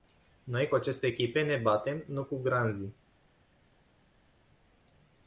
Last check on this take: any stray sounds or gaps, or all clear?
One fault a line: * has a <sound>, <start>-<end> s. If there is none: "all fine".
all fine